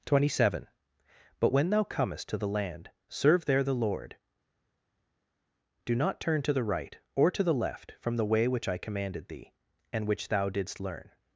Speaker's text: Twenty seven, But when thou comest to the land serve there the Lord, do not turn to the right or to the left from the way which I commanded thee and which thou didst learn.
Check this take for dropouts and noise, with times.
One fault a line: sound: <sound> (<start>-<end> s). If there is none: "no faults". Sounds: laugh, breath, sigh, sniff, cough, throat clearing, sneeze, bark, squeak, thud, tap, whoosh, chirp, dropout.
no faults